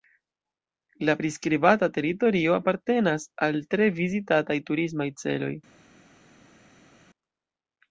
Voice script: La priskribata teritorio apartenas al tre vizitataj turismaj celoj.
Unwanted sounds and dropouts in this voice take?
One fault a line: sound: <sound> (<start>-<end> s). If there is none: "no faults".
no faults